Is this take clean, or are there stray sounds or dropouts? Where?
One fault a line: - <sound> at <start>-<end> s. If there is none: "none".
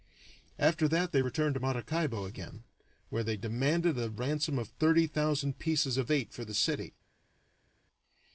none